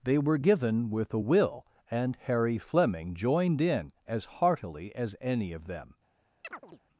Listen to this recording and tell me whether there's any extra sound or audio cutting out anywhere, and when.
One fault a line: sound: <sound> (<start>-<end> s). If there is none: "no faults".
sound: chirp (6.4-6.8 s)